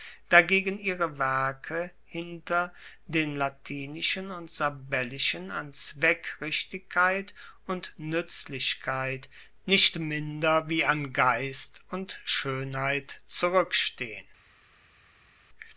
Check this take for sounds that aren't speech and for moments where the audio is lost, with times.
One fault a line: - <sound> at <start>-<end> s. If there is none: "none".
none